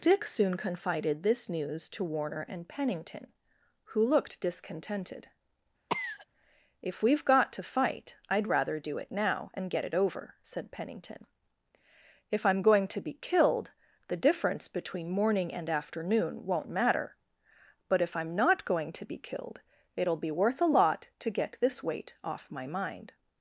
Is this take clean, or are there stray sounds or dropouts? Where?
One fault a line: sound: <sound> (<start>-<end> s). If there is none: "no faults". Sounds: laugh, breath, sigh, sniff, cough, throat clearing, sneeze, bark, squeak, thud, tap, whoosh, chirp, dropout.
sound: cough (5.9-6.3 s)